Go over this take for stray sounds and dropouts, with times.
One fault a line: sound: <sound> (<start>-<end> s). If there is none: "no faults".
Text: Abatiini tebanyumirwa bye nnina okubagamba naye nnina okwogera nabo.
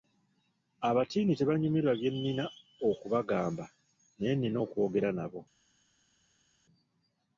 no faults